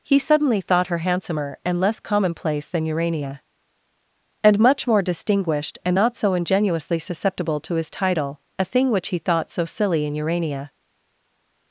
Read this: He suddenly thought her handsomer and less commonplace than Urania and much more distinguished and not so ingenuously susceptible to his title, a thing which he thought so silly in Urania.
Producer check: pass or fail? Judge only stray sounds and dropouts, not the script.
pass